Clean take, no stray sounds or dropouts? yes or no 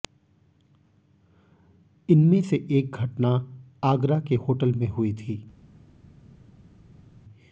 yes